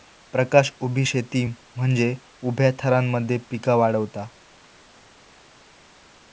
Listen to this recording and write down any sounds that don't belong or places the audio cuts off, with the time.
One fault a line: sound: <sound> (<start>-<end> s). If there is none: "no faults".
no faults